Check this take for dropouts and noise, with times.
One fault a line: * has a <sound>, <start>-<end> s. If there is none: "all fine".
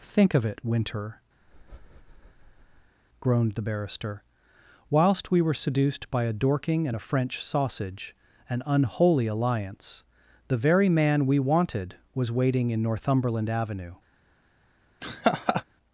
* has a breath, 1.4-3.0 s
* has a laugh, 15.0-15.6 s